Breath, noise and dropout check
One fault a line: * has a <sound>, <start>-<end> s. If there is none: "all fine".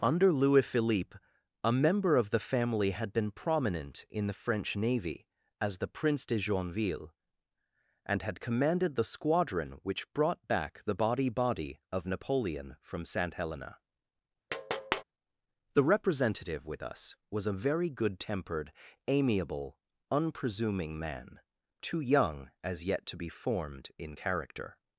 * has a tap, 14.5-15.0 s